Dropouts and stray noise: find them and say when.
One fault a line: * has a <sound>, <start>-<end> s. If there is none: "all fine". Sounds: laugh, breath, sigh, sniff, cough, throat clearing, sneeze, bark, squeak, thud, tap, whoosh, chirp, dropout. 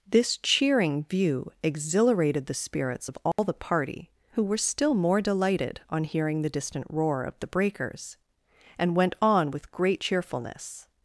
* has a dropout, 3.3-3.4 s